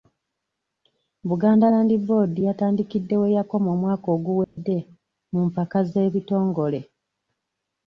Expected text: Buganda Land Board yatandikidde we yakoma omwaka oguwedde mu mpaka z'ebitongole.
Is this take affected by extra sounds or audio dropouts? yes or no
yes